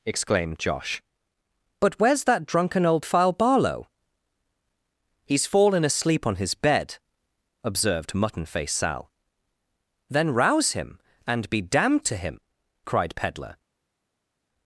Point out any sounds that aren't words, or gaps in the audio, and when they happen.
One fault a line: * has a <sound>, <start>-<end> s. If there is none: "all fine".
all fine